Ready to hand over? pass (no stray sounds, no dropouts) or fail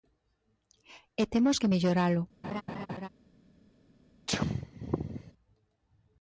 fail